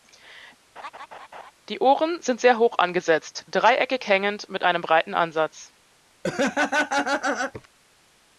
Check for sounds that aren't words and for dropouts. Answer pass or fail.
fail